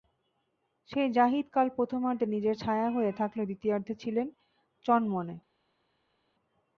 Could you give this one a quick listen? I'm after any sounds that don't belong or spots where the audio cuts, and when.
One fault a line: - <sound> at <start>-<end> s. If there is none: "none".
none